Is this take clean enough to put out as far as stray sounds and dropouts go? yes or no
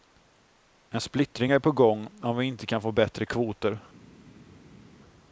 yes